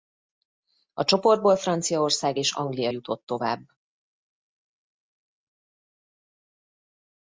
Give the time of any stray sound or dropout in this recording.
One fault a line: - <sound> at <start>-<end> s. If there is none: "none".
none